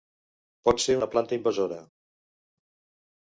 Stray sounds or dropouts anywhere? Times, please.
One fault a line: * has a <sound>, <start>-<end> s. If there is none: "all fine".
all fine